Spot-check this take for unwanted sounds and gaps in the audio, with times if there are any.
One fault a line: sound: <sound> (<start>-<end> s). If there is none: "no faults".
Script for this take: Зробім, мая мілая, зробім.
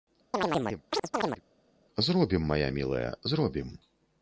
sound: chirp (0.3-1.4 s)